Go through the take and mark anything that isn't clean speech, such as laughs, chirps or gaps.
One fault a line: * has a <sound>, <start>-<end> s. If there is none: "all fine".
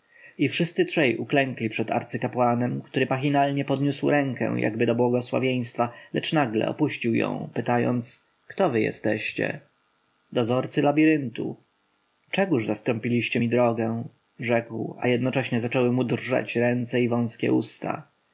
all fine